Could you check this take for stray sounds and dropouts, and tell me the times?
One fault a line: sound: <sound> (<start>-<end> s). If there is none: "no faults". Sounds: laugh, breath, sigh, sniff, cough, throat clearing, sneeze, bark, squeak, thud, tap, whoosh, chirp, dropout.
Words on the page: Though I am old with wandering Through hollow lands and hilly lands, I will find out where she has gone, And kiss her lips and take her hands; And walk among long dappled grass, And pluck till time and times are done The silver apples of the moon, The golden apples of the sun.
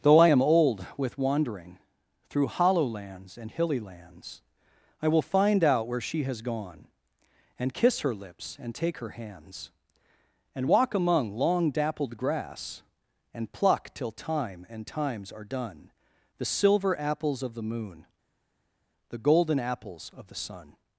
no faults